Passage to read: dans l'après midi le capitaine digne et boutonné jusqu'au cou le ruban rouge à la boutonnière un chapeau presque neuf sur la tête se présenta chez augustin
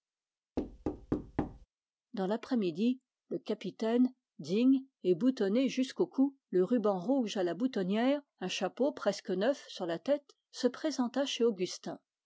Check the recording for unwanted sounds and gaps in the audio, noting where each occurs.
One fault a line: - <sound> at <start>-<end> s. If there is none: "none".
- thud at 0.6-1.7 s